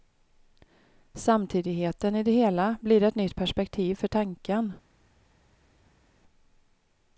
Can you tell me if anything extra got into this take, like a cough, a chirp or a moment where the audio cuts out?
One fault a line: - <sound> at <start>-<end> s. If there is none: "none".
none